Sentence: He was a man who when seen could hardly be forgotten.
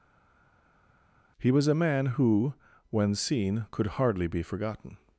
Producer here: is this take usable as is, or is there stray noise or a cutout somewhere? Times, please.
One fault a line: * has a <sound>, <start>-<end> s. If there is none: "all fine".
all fine